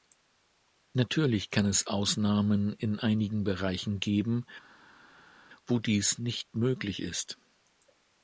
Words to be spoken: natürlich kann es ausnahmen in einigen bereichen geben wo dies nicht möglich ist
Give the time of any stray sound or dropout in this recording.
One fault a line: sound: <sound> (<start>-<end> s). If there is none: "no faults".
no faults